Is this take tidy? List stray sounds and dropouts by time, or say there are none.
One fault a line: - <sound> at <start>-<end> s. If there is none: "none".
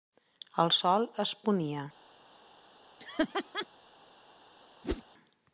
- laugh at 3.0-3.7 s
- whoosh at 4.8-5.0 s